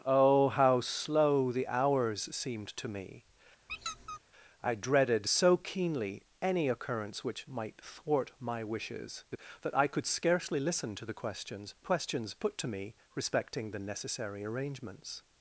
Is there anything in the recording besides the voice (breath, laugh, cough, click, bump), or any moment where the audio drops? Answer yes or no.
yes